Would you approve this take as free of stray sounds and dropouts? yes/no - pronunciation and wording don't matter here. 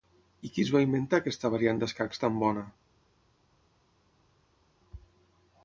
yes